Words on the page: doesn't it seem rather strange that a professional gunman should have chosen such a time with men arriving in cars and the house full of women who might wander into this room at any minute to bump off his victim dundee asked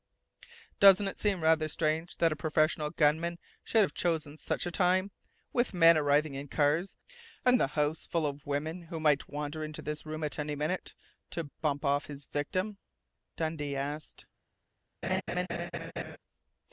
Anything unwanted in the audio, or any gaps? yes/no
yes